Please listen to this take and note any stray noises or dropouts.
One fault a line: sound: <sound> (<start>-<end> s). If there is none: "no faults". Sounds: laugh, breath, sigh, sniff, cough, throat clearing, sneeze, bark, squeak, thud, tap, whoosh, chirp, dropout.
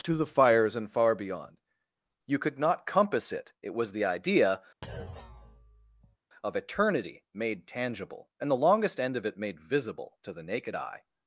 sound: thud (4.8-6.2 s)